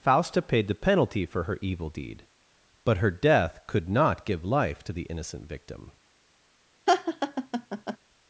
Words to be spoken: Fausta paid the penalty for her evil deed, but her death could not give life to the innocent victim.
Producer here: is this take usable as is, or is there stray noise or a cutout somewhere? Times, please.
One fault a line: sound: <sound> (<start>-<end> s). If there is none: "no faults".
sound: laugh (6.9-8.0 s)